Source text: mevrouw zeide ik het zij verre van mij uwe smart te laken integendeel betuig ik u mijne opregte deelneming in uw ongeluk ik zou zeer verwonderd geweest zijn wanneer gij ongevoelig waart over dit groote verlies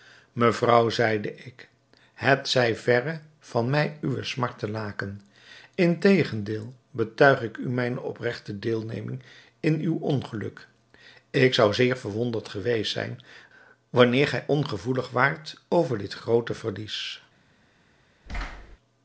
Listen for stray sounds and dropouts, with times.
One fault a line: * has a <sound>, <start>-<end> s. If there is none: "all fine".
* has a thud, 18.3-18.8 s